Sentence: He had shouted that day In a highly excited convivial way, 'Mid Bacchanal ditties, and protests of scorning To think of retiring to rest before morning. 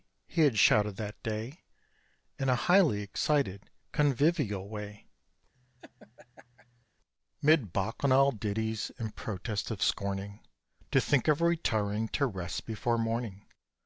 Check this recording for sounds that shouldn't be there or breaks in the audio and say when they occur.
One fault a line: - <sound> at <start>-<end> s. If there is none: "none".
- laugh at 5.5-6.9 s